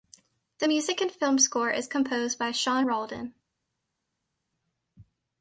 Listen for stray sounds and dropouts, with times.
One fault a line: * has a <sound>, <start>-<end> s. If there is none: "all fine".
all fine